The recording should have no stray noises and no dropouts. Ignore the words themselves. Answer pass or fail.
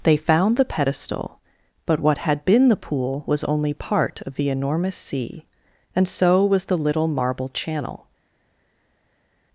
pass